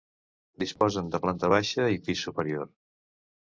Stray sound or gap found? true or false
true